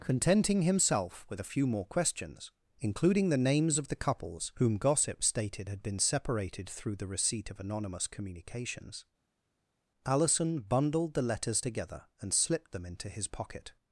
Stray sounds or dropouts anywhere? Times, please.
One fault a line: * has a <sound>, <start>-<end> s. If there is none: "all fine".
all fine